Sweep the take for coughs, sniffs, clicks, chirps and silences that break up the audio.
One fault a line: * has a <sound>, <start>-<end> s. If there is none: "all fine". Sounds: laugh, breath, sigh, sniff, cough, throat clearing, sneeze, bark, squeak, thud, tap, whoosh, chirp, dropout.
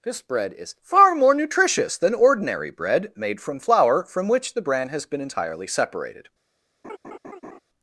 * has a laugh, 6.8-7.6 s